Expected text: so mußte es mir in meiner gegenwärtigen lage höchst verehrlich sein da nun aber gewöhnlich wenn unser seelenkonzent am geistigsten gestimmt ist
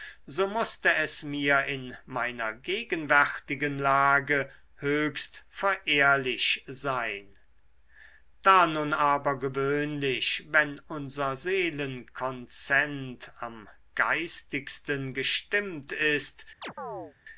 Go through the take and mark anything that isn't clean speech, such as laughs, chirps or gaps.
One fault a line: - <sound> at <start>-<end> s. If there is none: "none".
- chirp at 16.6-17.1 s